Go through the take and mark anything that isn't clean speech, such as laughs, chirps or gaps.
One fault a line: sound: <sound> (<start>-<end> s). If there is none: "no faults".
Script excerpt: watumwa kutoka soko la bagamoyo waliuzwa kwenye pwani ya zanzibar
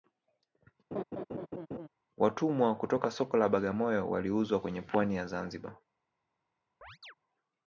sound: laugh (0.9-1.9 s)
sound: chirp (6.8-7.1 s)